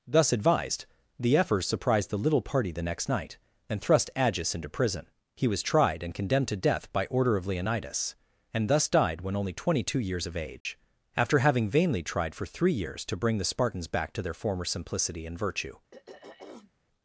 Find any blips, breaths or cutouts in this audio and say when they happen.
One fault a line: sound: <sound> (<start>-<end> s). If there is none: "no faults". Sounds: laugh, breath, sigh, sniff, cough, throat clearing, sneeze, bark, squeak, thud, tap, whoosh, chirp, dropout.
sound: dropout (10.6-10.7 s)
sound: throat clearing (15.9-16.7 s)